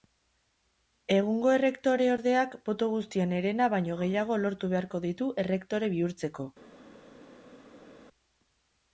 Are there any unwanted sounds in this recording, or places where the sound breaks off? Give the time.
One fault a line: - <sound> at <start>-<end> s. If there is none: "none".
none